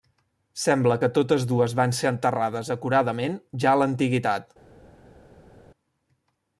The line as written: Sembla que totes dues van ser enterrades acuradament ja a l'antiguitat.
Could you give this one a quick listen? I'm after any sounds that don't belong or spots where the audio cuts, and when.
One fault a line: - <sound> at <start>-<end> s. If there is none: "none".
none